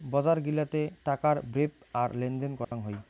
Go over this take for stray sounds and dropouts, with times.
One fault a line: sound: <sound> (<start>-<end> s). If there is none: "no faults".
sound: dropout (2.6-2.7 s)